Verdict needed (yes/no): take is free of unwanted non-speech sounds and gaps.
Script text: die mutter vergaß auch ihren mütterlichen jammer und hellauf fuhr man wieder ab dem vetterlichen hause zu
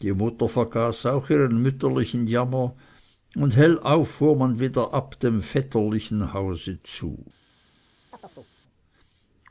no